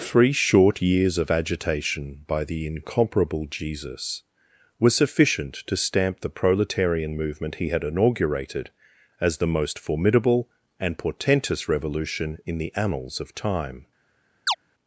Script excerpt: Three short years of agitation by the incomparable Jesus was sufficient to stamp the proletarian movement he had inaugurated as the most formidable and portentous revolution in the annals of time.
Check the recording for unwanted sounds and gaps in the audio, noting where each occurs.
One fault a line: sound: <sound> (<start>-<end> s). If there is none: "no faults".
sound: chirp (14.5-14.5 s)